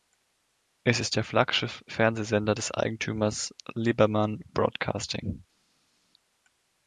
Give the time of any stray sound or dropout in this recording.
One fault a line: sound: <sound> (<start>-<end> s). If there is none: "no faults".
no faults